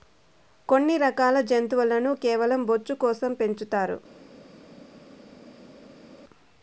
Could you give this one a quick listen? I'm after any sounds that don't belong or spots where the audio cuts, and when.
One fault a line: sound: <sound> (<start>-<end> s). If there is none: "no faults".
no faults